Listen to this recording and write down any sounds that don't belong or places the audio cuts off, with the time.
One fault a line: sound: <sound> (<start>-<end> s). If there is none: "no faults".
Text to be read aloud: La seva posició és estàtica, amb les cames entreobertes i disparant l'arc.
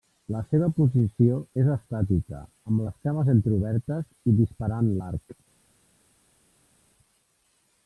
no faults